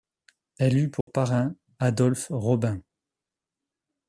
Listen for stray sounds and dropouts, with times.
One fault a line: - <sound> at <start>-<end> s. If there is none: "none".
- dropout at 1.0-1.1 s